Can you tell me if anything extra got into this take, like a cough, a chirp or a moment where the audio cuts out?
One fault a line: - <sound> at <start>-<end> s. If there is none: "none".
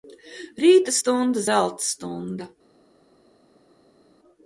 none